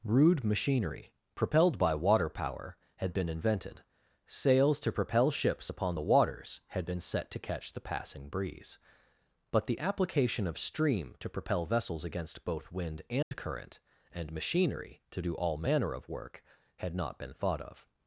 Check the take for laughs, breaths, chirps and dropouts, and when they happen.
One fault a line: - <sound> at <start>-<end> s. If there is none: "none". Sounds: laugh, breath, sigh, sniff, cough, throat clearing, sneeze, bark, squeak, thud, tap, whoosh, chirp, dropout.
- dropout at 13.2-13.3 s